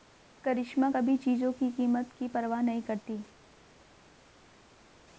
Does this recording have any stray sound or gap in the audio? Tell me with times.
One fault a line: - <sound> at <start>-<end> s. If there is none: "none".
none